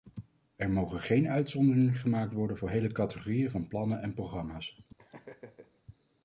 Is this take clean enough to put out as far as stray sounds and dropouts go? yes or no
no